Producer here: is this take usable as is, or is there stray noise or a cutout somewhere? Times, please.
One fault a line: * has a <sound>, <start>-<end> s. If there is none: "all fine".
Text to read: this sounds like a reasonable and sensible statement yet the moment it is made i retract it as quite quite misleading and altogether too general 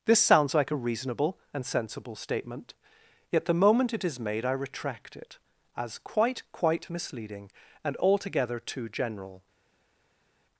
all fine